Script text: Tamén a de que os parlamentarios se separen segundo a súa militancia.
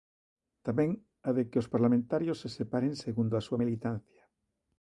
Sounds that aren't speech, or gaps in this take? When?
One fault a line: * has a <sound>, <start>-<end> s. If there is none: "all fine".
all fine